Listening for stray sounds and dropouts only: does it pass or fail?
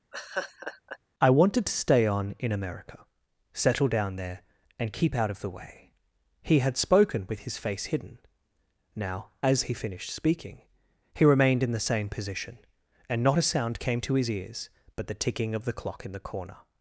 fail